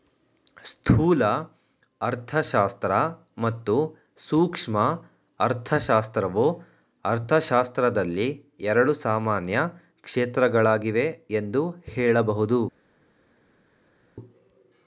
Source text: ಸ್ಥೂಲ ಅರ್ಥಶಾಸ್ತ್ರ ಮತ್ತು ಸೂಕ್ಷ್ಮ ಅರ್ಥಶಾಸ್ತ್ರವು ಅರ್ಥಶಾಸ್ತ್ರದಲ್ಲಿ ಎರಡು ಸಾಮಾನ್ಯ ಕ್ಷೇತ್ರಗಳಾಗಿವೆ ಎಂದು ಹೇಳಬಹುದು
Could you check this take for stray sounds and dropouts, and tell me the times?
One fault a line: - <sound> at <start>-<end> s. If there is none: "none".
none